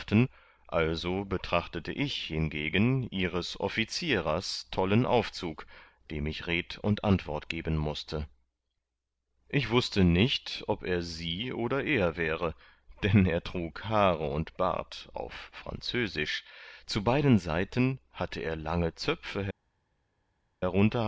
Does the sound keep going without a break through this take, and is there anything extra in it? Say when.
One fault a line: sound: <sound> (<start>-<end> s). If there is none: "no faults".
no faults